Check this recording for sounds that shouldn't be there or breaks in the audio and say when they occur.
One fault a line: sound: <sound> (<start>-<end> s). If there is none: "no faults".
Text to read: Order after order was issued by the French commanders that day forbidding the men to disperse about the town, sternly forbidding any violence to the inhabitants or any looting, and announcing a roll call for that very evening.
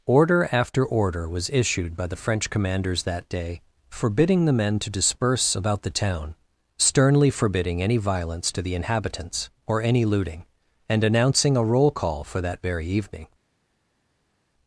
no faults